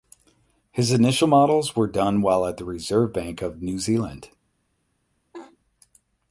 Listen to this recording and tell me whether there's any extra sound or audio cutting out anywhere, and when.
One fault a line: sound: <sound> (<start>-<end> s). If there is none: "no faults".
sound: laugh (5.3-5.6 s)